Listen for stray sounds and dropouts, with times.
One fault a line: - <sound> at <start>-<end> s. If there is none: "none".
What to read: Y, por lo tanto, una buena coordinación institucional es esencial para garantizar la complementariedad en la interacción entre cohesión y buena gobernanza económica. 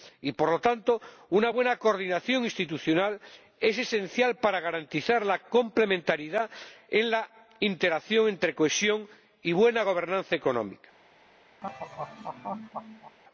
- laugh at 11.6-13.2 s